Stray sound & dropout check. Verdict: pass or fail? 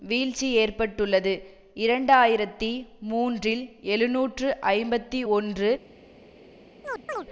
fail